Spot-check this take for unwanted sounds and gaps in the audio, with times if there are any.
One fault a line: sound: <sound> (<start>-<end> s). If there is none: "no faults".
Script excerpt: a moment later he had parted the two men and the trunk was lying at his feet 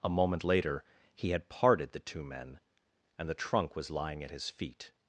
no faults